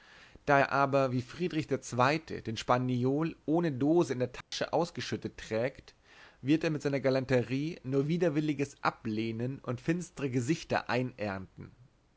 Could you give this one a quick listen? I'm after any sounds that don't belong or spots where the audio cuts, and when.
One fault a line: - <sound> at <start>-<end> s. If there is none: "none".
- dropout at 4.4-4.5 s